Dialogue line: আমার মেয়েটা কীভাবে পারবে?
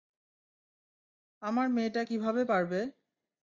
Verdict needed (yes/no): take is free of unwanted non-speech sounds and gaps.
yes